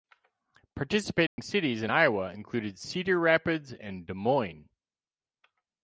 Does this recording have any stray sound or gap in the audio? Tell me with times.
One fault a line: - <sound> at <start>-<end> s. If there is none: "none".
- dropout at 1.3-1.4 s